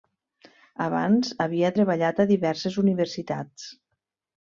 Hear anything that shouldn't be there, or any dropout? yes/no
no